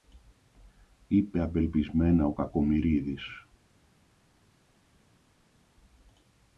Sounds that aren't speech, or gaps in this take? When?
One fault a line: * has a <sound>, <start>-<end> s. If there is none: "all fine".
all fine